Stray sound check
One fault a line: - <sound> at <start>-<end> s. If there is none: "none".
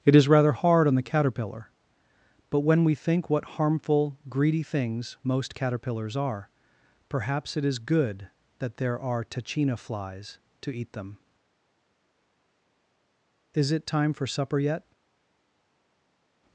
none